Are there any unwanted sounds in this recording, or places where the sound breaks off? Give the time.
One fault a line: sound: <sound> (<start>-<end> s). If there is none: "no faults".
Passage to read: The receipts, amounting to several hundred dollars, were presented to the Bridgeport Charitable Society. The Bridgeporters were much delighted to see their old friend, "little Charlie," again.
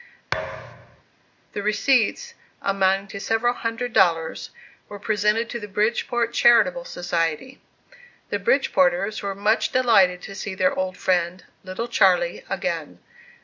sound: thud (0.3-1.0 s)